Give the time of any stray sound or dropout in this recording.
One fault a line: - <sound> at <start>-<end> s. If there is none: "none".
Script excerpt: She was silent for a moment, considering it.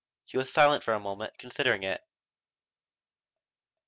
none